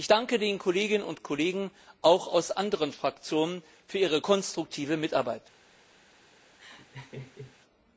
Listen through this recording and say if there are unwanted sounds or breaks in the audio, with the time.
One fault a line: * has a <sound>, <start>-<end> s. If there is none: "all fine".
* has a laugh, 6.6-7.6 s